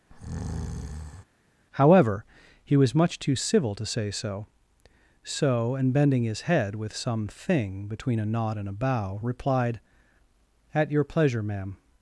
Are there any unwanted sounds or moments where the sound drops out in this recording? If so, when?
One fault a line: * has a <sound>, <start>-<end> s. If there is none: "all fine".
* has a breath, 0.1-1.2 s